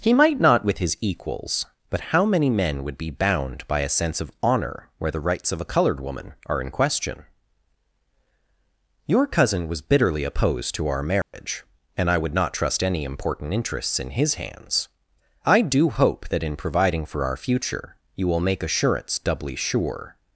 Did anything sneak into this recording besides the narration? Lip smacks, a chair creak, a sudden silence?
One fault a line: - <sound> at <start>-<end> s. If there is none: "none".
- dropout at 11.2-11.3 s